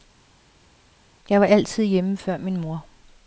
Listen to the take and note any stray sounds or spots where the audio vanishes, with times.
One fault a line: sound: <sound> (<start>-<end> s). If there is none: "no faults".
no faults